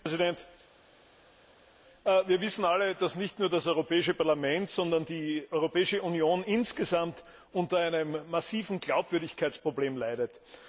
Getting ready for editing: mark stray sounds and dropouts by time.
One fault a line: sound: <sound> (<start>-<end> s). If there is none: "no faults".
no faults